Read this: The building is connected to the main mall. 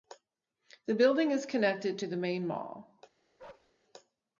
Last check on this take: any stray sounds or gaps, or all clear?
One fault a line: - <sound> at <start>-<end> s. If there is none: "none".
- bark at 3.4-3.7 s